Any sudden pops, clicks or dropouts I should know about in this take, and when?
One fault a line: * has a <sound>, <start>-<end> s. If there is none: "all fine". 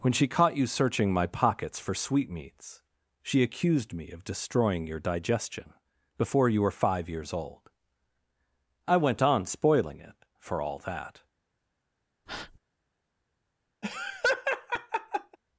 * has a breath, 12.3-12.6 s
* has a laugh, 13.8-15.4 s